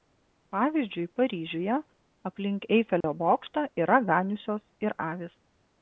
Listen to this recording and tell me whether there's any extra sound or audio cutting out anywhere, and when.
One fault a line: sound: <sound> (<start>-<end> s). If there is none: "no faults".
sound: dropout (3.0-3.0 s)